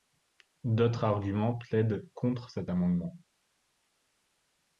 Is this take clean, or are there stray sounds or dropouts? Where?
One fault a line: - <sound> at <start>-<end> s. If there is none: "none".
none